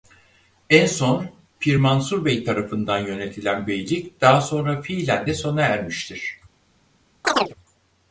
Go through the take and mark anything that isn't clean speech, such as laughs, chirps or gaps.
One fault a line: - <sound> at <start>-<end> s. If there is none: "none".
- chirp at 7.2-7.5 s